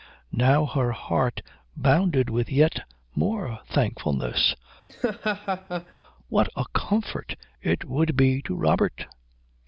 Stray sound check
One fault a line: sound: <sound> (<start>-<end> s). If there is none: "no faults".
sound: laugh (4.9-5.9 s)